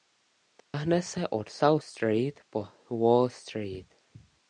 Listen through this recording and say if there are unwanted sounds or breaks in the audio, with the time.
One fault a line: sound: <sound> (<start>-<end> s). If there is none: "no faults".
sound: dropout (0.6-0.7 s)